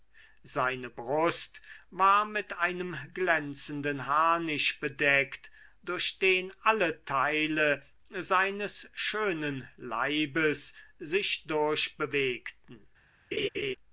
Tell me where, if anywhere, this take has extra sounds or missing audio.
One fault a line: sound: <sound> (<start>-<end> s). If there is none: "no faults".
sound: laugh (13.3-13.8 s)